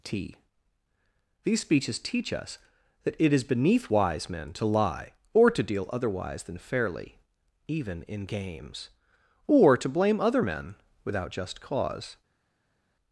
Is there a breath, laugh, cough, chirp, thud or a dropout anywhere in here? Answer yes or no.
no